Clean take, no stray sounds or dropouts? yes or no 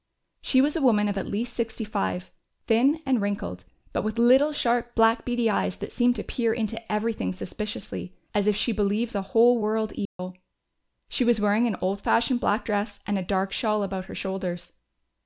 no